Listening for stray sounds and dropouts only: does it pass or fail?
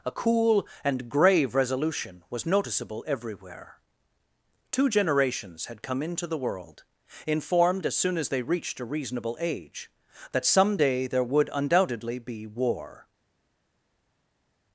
pass